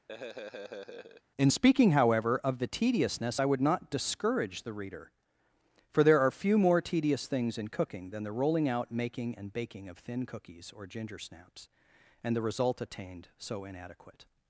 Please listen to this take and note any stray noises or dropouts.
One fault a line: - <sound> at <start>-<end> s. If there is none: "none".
- laugh at 0.1-1.2 s